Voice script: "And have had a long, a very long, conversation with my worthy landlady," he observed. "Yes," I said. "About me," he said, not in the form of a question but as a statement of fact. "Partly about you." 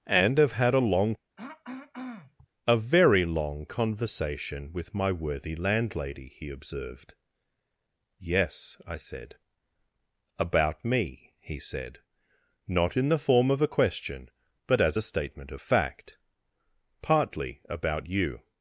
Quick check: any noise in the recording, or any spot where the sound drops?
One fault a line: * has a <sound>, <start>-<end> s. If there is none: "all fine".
* has a throat clearing, 1.4-2.5 s